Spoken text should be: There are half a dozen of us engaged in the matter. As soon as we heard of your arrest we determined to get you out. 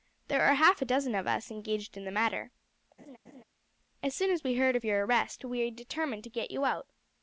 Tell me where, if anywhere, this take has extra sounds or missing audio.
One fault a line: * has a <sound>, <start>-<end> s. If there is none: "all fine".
* has a laugh, 3.0-3.4 s